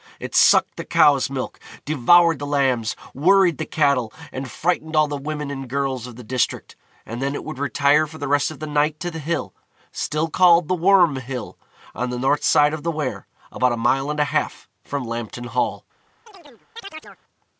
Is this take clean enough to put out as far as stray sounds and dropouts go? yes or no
no